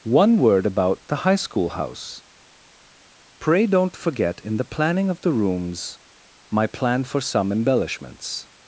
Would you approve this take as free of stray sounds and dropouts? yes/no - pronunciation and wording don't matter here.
yes